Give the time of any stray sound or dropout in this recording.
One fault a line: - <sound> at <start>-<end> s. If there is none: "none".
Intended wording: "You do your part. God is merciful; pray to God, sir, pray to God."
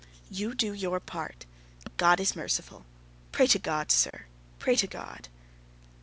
- dropout at 4.1-4.1 s